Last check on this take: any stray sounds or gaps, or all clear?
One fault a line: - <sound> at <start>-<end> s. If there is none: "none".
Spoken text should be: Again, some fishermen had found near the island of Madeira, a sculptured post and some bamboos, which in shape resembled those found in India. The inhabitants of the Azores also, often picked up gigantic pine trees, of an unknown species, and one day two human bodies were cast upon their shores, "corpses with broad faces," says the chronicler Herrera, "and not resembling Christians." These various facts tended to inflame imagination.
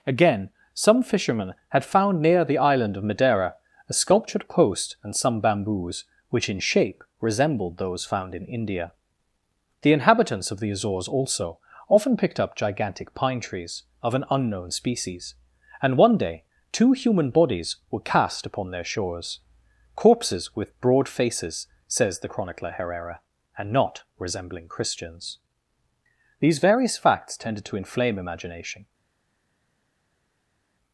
none